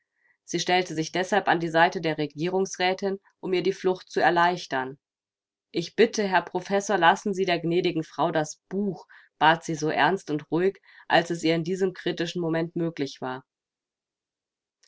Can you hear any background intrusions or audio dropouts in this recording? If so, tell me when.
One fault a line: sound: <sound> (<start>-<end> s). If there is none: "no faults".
no faults